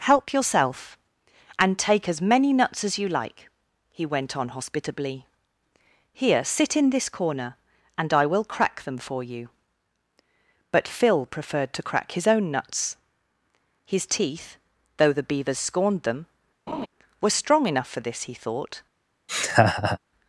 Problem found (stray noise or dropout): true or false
true